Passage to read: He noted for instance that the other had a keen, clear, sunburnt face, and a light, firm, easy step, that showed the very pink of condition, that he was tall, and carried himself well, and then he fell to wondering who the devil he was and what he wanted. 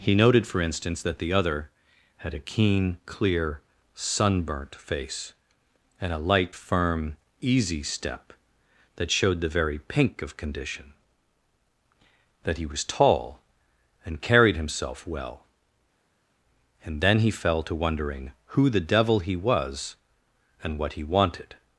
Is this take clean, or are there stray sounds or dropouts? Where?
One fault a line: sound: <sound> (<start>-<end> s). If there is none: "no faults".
no faults